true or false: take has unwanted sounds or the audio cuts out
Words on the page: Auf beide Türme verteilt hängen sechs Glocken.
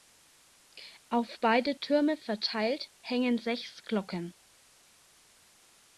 false